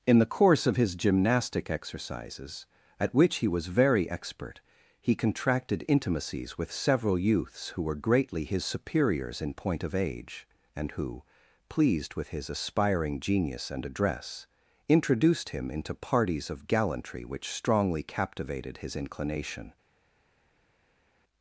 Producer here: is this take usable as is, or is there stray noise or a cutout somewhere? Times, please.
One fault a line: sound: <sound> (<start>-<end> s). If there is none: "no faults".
no faults